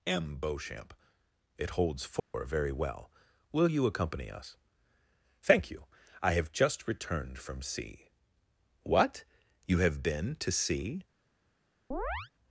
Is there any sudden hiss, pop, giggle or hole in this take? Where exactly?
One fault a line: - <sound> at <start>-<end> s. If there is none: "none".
- dropout at 2.2-2.3 s
- chirp at 11.9-12.3 s